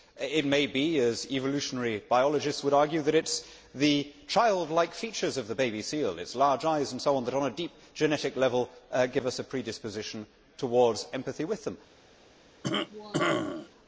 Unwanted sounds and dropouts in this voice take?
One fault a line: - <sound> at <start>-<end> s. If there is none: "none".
- cough at 12.6-13.7 s